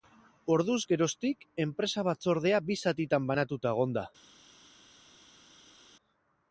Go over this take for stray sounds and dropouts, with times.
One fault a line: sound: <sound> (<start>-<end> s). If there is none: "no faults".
no faults